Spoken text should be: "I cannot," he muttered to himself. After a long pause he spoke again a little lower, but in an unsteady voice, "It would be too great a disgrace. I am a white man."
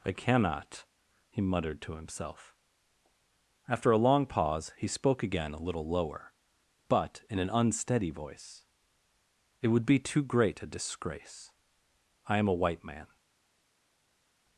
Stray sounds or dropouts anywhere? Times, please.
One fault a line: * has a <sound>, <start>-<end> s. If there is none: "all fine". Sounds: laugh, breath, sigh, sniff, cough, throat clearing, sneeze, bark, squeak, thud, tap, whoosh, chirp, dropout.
all fine